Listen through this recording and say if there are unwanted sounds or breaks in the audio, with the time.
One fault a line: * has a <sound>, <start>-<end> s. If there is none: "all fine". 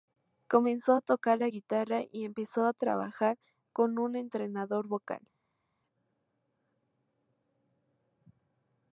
all fine